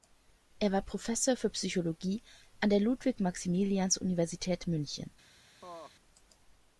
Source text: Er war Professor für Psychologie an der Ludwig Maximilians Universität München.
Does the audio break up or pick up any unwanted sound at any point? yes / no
yes